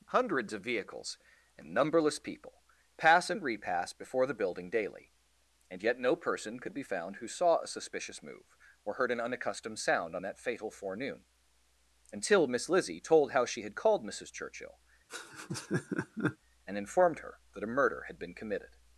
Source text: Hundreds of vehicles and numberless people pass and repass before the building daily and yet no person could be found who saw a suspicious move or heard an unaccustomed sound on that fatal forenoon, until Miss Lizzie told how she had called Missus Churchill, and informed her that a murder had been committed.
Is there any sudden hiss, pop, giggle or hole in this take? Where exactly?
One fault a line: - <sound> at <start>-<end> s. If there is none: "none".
- laugh at 15.1-16.4 s